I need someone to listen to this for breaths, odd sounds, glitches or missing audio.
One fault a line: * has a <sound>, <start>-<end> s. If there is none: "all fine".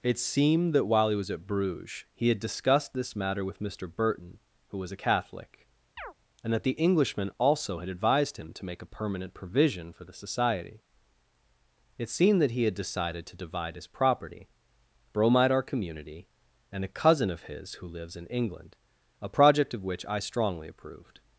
* has a chirp, 6.0-6.1 s